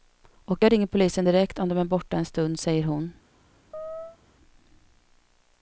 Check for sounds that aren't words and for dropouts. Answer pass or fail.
fail